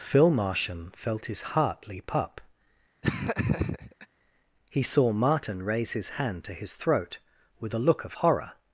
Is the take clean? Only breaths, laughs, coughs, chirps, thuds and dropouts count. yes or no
no